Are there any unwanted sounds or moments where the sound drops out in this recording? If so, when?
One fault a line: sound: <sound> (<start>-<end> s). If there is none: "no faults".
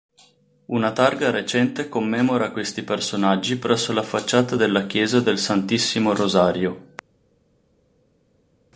no faults